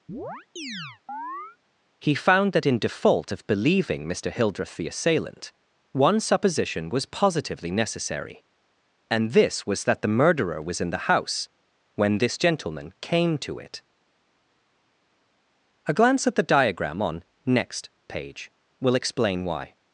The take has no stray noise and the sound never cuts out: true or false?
false